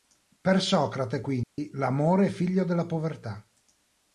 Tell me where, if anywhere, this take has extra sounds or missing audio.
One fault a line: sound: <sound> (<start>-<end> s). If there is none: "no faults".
sound: dropout (1.4-1.6 s)